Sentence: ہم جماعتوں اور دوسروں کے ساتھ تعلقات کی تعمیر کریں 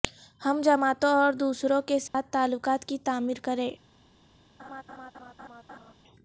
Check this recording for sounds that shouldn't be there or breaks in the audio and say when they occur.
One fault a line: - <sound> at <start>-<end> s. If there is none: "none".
- dropout at 2.1-2.1 s
- laugh at 4.6-5.9 s